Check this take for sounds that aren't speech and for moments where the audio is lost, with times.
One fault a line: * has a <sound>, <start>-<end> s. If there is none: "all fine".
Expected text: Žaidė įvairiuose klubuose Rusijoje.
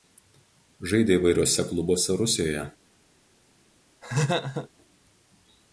* has a laugh, 4.0-4.7 s